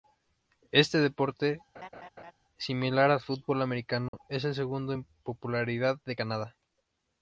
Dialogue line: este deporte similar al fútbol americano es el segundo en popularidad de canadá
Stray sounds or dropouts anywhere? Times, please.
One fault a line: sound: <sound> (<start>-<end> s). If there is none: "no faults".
sound: laugh (1.7-2.3 s)
sound: dropout (4.1-4.1 s)